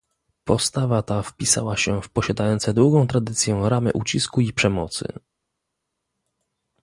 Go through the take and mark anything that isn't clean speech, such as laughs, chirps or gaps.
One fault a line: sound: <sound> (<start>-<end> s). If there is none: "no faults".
no faults